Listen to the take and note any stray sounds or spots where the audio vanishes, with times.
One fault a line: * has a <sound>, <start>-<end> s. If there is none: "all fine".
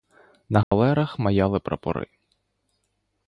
* has a dropout, 0.6-0.7 s